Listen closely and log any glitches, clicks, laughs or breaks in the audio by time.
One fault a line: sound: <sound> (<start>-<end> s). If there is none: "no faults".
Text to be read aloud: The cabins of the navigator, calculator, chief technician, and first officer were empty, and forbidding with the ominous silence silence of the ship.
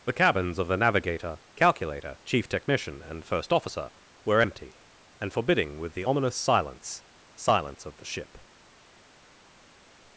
no faults